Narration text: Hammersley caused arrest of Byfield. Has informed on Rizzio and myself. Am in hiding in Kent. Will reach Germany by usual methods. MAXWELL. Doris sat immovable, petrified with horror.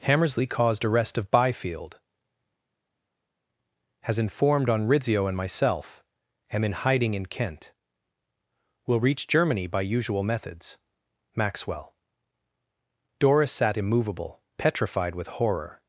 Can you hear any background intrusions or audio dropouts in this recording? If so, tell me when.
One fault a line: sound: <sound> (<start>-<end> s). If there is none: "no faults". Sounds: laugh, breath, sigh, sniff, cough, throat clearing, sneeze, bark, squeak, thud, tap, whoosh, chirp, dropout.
no faults